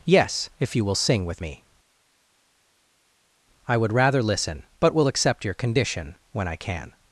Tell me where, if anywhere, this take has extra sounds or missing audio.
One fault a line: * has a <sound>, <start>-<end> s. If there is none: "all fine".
all fine